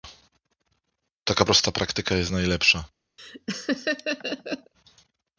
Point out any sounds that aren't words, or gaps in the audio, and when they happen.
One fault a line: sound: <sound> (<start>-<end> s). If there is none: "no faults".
sound: laugh (3.2-4.7 s)